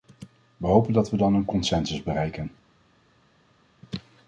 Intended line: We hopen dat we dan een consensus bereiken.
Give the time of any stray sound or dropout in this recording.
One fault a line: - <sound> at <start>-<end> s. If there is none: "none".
none